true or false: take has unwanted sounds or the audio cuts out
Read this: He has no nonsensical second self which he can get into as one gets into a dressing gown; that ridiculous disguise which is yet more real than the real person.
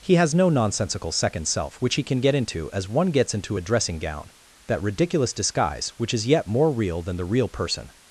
false